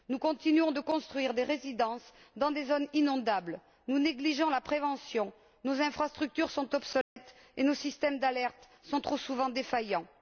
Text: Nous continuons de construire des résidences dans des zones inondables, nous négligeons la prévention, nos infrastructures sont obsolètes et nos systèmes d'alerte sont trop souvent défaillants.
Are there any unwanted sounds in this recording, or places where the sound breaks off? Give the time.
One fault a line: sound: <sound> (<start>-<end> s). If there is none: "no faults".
sound: dropout (7.0-7.2 s)